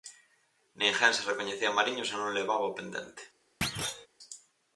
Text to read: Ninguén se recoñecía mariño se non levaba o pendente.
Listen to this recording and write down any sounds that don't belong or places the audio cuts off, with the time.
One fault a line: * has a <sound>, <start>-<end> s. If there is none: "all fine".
* has a thud, 3.6-4.1 s